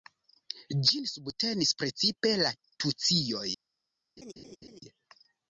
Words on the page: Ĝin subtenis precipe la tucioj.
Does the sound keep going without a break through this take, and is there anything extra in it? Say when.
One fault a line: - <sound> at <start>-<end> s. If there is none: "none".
- laugh at 4.2-4.8 s